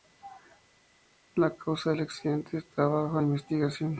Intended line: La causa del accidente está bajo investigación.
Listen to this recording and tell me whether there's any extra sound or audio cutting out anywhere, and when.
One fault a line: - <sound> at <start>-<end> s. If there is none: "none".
none